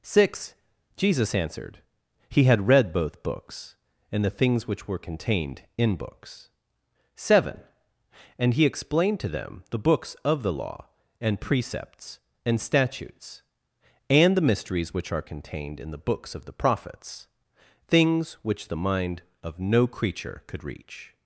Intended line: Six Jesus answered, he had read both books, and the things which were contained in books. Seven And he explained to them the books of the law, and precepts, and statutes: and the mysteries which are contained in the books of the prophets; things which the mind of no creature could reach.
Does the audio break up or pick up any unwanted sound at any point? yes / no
no